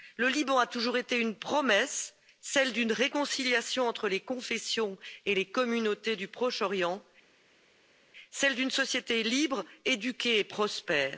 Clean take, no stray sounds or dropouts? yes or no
yes